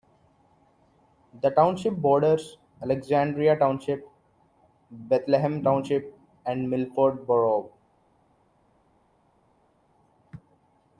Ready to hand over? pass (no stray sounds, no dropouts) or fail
pass